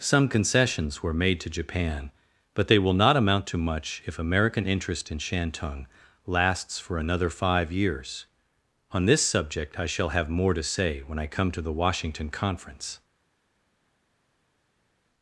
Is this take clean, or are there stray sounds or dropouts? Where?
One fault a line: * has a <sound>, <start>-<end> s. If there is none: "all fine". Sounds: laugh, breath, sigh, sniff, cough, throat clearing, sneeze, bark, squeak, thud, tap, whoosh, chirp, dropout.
all fine